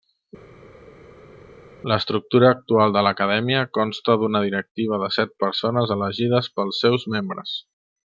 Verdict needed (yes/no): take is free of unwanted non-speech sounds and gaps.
yes